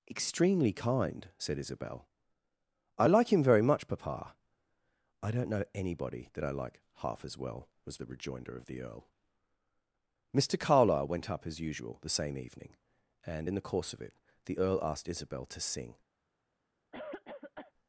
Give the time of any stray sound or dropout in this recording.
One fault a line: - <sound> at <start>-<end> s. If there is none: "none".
- cough at 16.9-17.7 s